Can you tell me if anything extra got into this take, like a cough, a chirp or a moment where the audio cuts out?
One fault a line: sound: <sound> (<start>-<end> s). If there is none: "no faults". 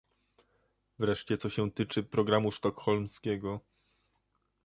no faults